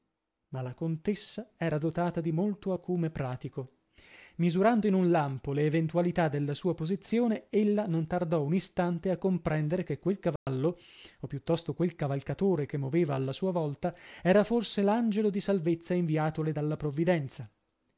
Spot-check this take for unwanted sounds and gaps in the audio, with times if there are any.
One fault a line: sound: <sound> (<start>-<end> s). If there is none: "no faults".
sound: dropout (10.4-10.5 s)